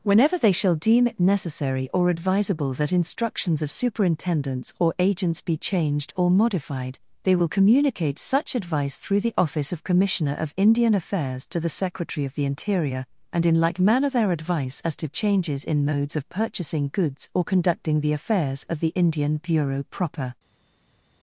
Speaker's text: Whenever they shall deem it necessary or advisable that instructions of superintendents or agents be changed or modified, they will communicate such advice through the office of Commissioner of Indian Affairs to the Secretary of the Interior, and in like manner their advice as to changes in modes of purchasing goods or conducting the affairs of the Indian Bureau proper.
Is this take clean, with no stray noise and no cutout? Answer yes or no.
yes